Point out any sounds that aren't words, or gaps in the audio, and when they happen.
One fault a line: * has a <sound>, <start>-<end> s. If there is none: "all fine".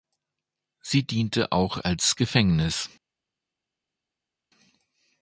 all fine